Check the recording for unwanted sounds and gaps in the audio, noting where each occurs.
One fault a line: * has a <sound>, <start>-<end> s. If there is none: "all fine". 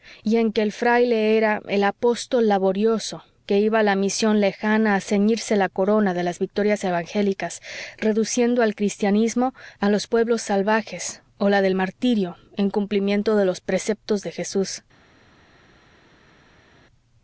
all fine